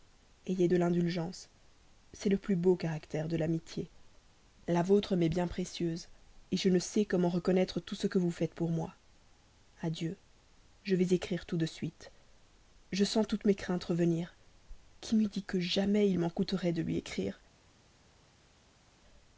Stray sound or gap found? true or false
false